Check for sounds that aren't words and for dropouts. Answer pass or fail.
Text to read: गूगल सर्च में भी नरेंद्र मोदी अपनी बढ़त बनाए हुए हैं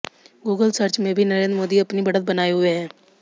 pass